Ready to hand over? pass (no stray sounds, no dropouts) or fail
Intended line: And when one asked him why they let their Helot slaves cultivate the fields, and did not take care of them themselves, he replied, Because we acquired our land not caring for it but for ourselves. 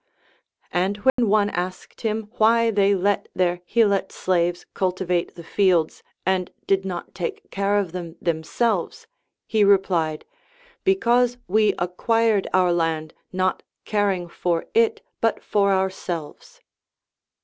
fail